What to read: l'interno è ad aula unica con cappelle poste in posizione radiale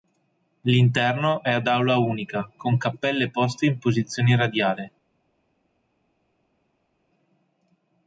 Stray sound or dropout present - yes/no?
no